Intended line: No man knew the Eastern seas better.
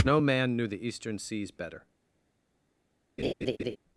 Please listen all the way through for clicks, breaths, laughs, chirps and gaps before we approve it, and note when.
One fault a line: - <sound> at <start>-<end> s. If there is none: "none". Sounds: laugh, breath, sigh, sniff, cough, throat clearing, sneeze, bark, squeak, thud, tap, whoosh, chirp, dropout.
- laugh at 3.2-3.8 s